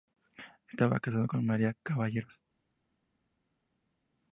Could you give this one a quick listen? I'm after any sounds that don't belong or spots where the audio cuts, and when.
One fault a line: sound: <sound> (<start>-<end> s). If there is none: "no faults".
no faults